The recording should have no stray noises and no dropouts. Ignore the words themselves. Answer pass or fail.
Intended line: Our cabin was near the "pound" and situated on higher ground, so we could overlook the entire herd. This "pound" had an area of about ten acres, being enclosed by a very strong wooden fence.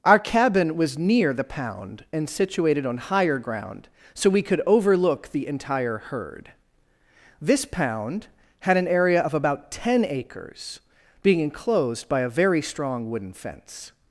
pass